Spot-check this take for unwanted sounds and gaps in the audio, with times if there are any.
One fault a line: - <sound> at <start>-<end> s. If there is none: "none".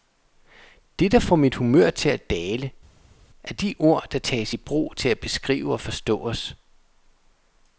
none